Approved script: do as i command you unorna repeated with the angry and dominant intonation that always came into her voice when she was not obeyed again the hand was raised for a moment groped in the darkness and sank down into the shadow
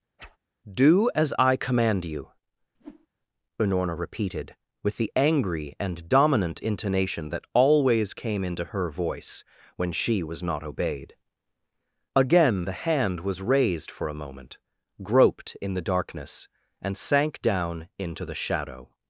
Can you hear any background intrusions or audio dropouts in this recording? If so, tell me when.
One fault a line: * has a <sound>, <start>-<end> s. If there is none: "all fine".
* has a whoosh, 0.2-0.4 s
* has a whoosh, 2.7-3.1 s